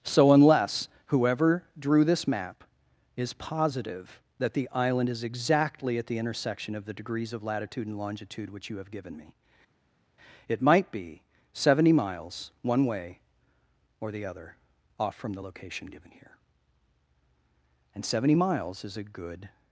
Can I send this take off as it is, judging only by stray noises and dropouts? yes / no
yes